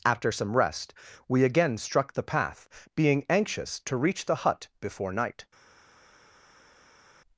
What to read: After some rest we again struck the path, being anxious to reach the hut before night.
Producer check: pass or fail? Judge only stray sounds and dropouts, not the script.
pass